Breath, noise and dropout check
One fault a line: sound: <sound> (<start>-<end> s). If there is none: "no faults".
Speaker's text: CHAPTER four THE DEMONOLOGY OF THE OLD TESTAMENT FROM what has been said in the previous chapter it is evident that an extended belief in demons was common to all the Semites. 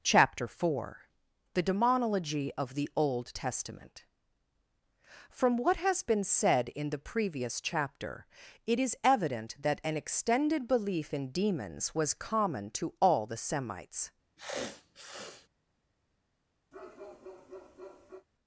sound: sniff (14.4-15.5 s)
sound: bark (16.7-18.3 s)